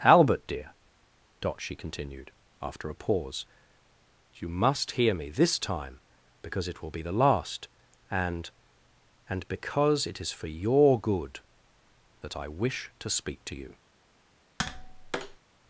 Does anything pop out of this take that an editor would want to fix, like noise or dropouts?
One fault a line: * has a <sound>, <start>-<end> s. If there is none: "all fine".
* has a tap, 14.6-15.4 s